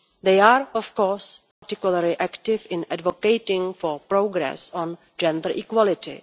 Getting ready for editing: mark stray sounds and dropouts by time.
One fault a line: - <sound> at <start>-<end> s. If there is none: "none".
- dropout at 1.5-1.6 s